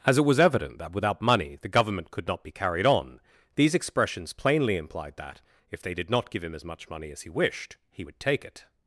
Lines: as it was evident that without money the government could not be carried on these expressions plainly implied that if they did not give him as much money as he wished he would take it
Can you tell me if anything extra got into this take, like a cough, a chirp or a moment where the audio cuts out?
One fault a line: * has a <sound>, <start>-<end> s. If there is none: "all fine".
all fine